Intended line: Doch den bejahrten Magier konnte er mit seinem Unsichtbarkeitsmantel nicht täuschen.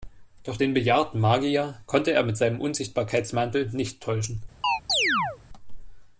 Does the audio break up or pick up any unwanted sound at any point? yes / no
yes